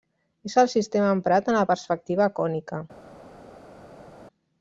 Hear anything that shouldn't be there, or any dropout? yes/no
no